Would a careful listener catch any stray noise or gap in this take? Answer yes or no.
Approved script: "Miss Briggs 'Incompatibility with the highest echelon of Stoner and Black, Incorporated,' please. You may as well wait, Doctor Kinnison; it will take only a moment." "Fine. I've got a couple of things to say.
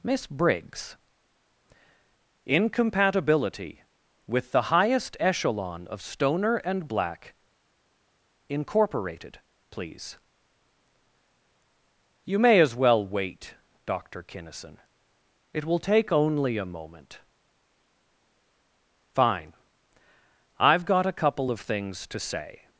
no